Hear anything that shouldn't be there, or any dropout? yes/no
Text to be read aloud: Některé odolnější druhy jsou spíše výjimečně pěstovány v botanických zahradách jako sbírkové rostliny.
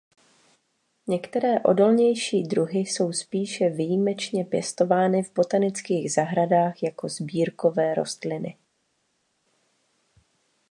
no